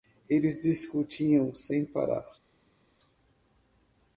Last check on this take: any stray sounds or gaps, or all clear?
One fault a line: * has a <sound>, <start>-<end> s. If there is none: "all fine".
all fine